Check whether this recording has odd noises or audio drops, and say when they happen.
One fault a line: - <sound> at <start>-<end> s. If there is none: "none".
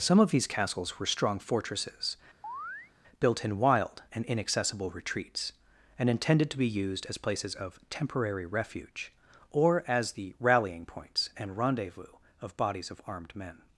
- chirp at 2.4-2.9 s